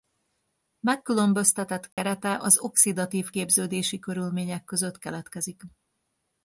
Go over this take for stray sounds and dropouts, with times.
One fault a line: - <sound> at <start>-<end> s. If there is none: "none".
- dropout at 1.9-2.0 s